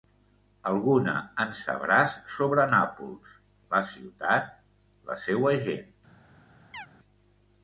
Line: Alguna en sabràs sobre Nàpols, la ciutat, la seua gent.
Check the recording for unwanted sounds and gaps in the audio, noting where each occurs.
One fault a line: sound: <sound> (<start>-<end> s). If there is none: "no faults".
sound: chirp (6.7-6.9 s)